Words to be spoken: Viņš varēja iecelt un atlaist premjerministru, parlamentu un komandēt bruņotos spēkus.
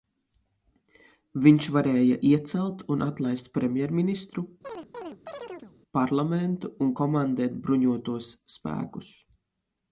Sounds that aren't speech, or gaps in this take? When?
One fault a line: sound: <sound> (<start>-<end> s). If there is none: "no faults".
sound: chirp (4.6-5.8 s)